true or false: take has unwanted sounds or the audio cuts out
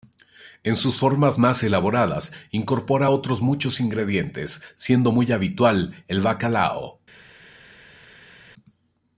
false